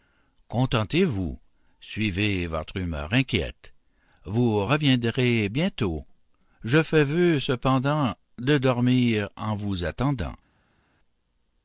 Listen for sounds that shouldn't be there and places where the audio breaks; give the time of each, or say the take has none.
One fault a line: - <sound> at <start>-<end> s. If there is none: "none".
none